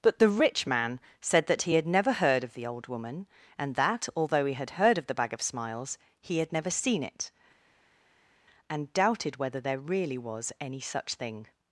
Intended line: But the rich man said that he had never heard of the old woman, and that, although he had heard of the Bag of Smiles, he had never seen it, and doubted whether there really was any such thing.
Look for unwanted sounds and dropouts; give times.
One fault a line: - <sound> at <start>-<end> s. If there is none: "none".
none